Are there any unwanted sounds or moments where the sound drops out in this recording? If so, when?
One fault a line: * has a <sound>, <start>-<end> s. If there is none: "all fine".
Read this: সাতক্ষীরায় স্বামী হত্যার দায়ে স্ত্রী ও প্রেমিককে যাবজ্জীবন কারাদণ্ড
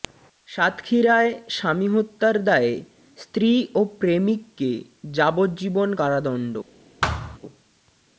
* has a thud, 7.0-7.4 s